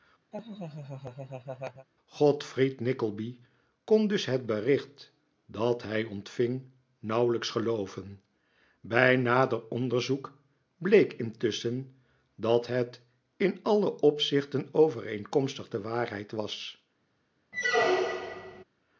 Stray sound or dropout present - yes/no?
yes